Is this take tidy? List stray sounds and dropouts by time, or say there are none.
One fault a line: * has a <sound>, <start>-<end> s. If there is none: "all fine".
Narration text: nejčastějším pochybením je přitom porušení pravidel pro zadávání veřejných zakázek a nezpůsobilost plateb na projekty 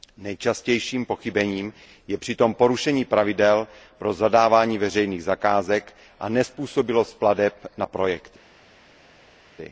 all fine